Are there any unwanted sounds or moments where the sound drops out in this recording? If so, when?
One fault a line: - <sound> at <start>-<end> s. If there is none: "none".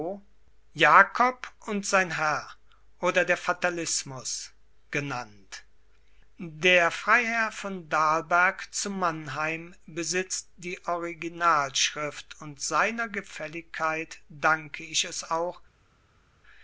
none